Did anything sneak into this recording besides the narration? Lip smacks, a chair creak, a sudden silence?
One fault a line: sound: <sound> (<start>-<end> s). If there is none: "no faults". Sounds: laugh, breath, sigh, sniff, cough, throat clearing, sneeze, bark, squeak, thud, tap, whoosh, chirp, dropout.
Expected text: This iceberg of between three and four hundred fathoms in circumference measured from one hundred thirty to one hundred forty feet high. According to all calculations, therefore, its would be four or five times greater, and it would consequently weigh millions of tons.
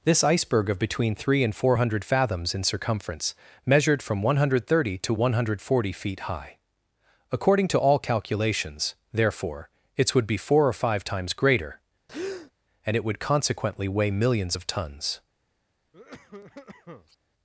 sound: breath (12.1-12.5 s)
sound: cough (15.9-17.2 s)